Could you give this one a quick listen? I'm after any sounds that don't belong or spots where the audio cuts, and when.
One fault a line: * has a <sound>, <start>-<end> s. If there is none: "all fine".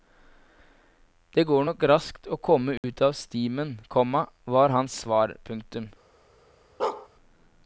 * has a dropout, 2.8-2.8 s
* has a bark, 6.8-7.1 s